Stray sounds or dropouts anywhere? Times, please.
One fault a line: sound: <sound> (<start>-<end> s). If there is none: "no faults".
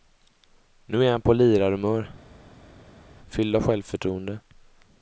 no faults